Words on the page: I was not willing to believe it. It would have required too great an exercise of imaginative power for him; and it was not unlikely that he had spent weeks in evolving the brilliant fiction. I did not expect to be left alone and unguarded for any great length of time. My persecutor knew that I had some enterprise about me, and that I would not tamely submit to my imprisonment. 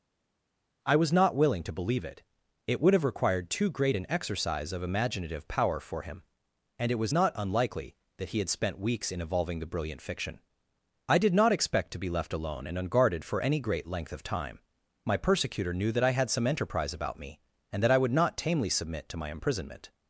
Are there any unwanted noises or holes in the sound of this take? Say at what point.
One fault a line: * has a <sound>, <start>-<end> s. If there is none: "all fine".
all fine